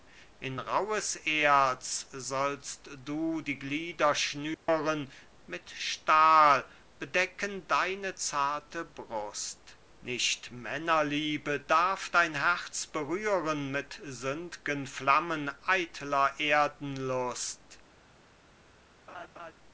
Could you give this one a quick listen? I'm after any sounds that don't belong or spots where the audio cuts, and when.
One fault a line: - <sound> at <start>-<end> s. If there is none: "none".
- dropout at 4.5-4.7 s
- laugh at 19.1-19.5 s